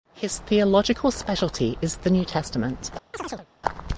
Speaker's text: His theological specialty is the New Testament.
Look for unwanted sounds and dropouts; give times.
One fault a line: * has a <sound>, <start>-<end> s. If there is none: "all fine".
* has a chirp, 3.1-3.5 s